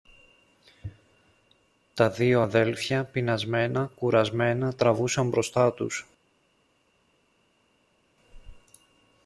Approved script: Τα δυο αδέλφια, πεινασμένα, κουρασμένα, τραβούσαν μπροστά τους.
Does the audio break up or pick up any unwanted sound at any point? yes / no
no